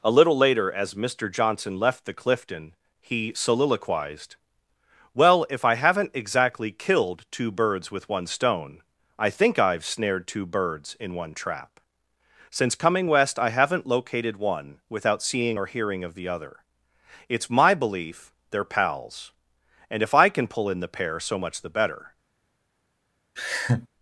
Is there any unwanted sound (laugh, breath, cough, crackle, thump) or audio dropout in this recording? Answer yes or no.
yes